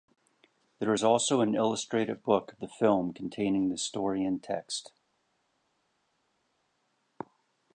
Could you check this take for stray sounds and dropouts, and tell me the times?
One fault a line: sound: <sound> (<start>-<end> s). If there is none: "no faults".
no faults